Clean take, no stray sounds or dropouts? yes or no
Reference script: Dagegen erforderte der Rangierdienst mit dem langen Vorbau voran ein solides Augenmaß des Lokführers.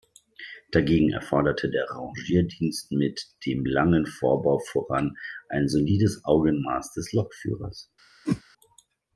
no